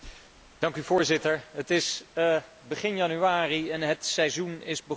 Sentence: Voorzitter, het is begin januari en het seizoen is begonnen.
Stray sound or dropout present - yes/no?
no